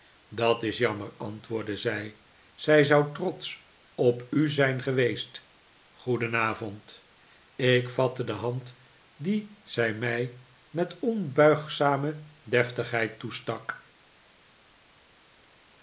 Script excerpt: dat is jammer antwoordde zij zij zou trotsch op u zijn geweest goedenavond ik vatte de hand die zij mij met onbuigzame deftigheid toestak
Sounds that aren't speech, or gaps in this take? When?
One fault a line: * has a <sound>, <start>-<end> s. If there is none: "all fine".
all fine